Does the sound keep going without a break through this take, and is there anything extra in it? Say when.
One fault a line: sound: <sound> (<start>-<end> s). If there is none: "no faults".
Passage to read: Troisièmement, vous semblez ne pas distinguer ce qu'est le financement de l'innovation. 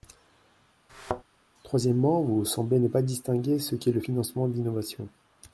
sound: thud (0.9-1.2 s)